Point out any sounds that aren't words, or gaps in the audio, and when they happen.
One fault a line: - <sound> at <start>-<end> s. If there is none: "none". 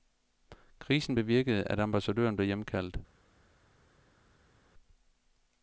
none